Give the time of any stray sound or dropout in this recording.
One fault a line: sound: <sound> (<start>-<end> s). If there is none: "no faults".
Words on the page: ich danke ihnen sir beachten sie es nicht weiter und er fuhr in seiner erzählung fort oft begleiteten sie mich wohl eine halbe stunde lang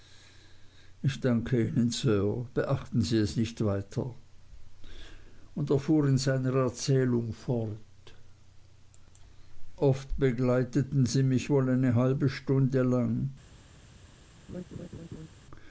sound: laugh (14.5-15.3 s)